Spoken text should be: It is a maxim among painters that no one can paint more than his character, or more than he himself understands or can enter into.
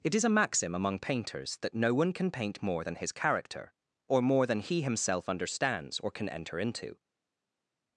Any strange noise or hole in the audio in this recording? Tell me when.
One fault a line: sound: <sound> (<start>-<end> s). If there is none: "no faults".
no faults